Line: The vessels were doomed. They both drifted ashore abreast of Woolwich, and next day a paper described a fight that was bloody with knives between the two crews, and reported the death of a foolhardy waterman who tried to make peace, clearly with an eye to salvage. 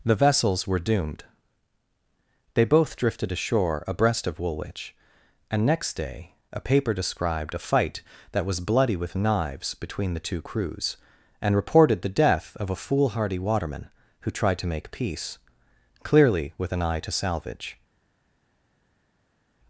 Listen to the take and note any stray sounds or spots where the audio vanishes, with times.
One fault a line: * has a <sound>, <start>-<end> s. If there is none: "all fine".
all fine